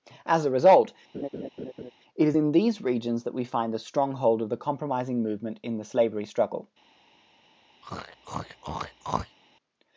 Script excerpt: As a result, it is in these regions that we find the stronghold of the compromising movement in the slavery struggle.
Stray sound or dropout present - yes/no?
yes